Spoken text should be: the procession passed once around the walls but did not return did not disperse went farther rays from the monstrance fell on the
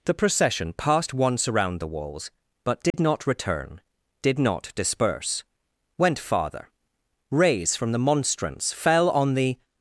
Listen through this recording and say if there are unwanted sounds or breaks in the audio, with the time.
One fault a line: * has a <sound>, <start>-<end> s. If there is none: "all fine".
* has a dropout, 2.9-2.9 s